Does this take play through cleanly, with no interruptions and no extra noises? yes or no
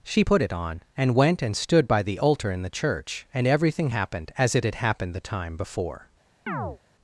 no